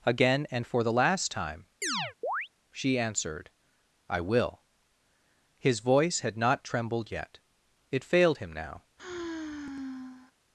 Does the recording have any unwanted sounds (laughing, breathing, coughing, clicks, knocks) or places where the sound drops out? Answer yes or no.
yes